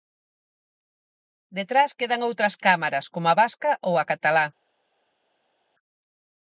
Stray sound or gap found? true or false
false